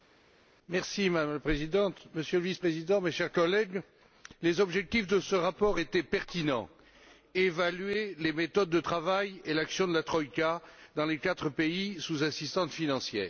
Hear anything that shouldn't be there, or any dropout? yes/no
no